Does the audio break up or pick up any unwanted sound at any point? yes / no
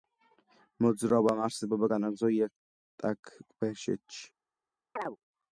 yes